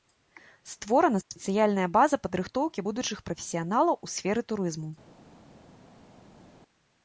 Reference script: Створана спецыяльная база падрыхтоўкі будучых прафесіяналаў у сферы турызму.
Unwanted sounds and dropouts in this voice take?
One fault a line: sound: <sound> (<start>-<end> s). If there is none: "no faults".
no faults